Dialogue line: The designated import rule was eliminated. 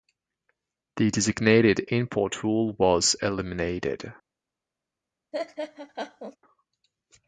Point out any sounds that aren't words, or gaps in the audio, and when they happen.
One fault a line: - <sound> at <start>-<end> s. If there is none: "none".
- laugh at 5.3-6.4 s